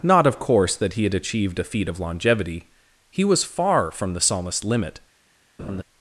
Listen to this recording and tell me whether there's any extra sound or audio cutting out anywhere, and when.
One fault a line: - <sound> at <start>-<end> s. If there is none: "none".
- laugh at 5.6-5.8 s